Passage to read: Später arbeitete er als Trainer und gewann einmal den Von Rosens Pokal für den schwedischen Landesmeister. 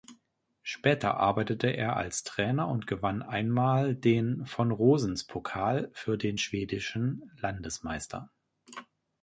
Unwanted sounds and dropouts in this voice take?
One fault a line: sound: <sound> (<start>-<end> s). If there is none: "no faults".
no faults